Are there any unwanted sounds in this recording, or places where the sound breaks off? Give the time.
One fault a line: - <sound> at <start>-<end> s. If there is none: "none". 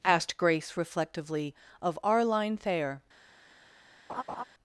- laugh at 4.1-4.4 s